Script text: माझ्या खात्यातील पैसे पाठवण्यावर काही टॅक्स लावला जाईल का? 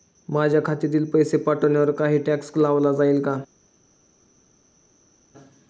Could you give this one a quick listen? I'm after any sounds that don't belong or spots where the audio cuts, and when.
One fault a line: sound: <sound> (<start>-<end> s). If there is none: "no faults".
no faults